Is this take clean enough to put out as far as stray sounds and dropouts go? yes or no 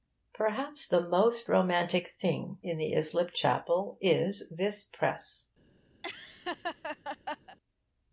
no